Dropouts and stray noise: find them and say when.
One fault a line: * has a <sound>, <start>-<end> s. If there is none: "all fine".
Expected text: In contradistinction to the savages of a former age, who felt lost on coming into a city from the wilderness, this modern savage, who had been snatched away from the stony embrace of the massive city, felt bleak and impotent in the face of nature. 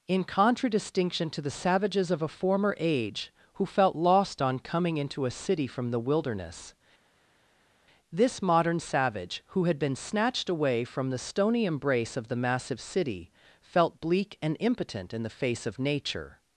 all fine